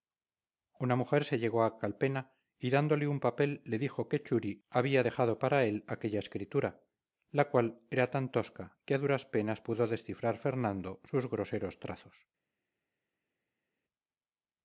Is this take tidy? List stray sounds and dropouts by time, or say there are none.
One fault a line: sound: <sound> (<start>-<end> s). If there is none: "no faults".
no faults